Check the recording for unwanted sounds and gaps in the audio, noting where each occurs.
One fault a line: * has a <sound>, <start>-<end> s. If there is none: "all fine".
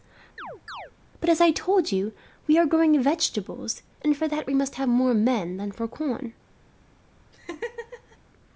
* has a chirp, 0.4-0.9 s
* has a laugh, 7.3-8.2 s